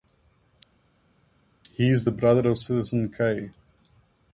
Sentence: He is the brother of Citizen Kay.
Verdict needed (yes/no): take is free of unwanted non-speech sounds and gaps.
yes